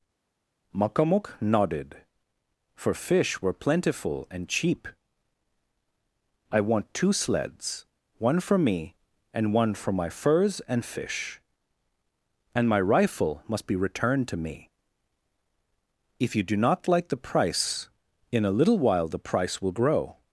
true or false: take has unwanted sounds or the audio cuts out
false